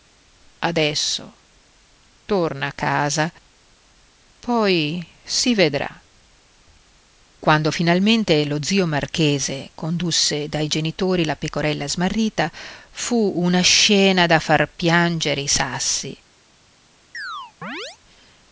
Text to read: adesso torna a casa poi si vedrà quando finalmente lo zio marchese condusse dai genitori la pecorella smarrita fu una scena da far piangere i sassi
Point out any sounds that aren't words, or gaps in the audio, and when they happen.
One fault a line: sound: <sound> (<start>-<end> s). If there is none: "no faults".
sound: chirp (17.1-18.0 s)